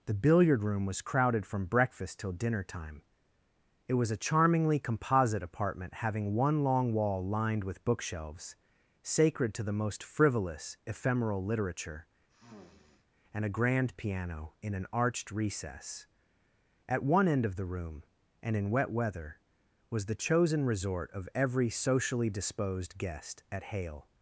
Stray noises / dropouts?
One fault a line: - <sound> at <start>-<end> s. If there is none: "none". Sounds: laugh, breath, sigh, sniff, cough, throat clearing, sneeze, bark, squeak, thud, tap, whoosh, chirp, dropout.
- sniff at 12.3-13.1 s